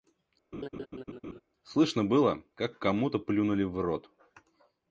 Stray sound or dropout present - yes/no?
yes